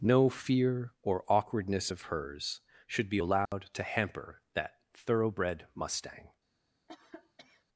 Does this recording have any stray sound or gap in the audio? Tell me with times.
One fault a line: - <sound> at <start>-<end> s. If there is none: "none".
- dropout at 3.5-3.5 s
- cough at 6.9-7.7 s